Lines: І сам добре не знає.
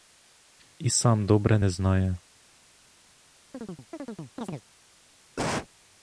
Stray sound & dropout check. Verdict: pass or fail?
fail